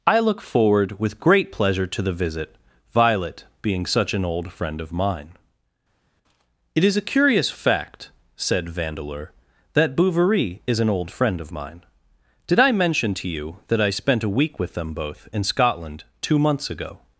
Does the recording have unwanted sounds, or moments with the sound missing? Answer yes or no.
no